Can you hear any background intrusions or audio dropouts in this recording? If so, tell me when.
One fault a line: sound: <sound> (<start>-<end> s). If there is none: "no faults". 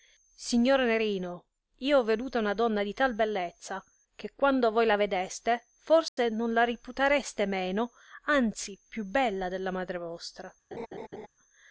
sound: dropout (6.1-6.2 s)
sound: laugh (10.7-11.3 s)